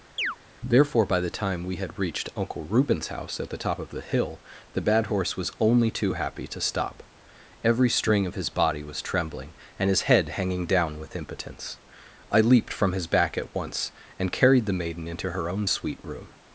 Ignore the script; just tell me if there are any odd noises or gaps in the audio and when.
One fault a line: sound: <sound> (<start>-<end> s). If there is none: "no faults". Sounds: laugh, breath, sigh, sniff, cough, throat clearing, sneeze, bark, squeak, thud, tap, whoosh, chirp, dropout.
sound: chirp (0.2-0.4 s)